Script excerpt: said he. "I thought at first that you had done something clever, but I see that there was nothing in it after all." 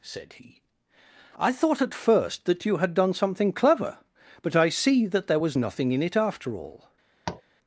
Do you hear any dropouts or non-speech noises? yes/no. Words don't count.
yes